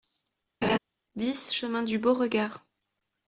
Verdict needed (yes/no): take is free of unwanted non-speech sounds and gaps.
no